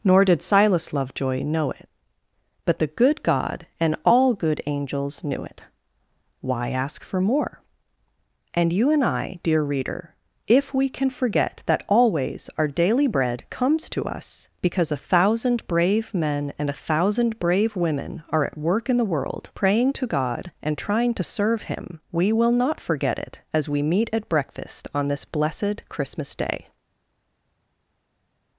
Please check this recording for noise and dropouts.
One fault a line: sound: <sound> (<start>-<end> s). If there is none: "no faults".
no faults